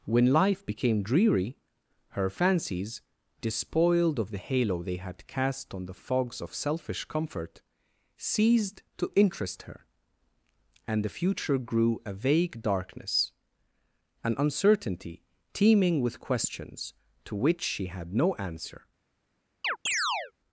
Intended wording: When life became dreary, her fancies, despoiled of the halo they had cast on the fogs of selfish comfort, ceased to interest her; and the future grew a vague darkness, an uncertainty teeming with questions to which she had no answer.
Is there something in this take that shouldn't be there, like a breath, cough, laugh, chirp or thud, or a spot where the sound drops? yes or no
yes